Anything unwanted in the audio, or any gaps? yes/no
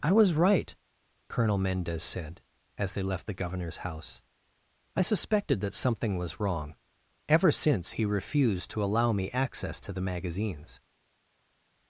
no